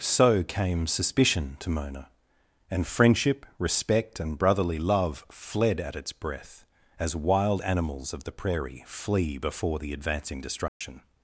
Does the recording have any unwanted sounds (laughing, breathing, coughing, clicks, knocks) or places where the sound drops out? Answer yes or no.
yes